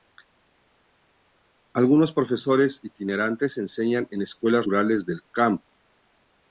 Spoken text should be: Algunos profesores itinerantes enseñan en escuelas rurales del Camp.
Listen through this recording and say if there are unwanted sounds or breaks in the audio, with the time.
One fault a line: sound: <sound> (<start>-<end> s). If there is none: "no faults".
no faults